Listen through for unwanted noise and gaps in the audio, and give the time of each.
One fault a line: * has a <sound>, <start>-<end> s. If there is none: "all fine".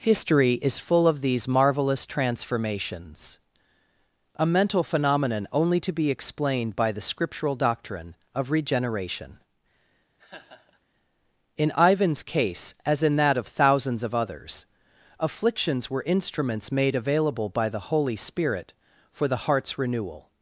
* has a laugh, 10.2-10.8 s